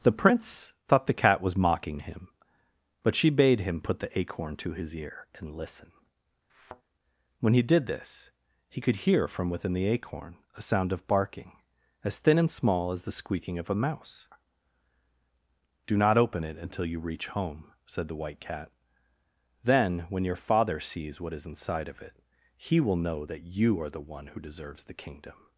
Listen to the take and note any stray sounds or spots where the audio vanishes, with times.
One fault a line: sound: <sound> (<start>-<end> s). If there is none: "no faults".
sound: thud (6.5-6.8 s)